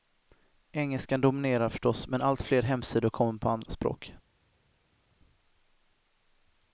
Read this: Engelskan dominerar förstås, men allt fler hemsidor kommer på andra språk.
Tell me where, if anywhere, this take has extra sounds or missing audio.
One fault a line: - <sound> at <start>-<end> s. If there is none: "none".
none